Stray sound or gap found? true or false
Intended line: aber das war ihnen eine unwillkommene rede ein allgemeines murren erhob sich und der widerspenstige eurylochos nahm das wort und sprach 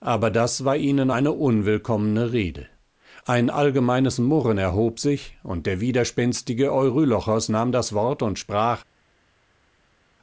false